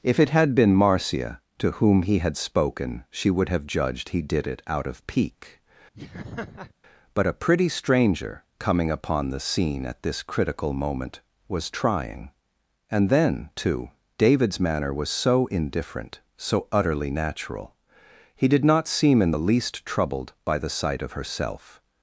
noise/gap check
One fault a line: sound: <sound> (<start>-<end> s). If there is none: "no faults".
sound: laugh (5.9-6.7 s)